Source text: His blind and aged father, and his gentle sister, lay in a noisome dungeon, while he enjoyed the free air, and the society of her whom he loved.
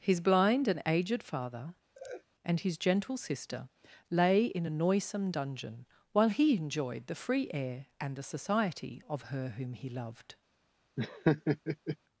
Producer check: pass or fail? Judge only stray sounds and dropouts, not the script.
fail